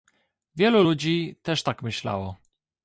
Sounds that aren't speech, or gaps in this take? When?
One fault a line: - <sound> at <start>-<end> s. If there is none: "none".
none